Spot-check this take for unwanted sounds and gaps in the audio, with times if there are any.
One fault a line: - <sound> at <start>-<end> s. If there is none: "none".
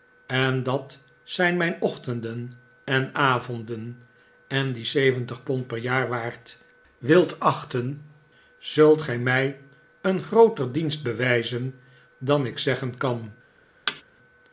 - thud at 13.9-14.0 s